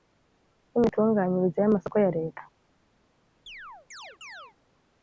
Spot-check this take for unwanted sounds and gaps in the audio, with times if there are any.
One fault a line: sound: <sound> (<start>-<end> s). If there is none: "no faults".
sound: chirp (3.5-4.6 s)